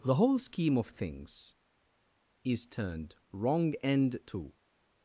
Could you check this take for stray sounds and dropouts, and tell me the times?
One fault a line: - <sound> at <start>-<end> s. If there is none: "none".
none